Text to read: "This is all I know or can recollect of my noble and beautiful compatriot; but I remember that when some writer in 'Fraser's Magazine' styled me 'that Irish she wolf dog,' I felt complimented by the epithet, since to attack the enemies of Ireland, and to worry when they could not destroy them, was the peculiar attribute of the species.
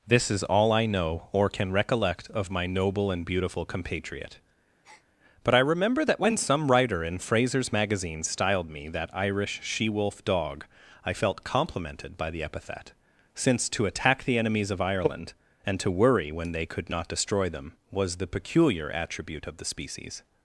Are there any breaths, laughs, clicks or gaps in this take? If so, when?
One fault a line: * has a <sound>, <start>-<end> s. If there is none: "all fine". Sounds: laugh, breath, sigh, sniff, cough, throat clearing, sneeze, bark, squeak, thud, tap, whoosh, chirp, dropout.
* has a breath, 4.8-5.1 s